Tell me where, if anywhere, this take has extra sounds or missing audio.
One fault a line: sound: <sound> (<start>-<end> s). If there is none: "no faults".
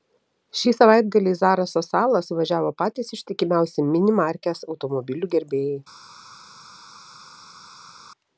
no faults